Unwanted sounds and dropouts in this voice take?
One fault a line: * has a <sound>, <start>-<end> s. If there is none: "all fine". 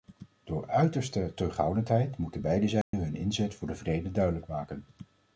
* has a dropout, 2.8-2.9 s